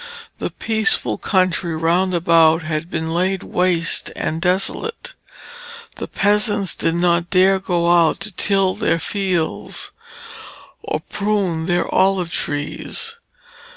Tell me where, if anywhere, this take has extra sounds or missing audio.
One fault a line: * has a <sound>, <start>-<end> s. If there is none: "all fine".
all fine